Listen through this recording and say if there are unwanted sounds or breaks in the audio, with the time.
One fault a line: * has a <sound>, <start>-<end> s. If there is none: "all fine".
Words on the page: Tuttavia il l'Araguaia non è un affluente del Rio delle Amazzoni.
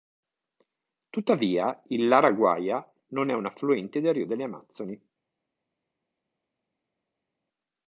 all fine